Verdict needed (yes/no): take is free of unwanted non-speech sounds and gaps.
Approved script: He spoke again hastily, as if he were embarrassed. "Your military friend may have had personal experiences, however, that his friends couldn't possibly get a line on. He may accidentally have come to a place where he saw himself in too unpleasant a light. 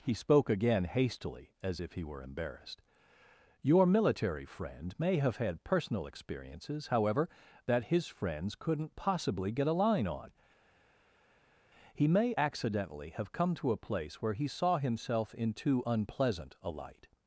yes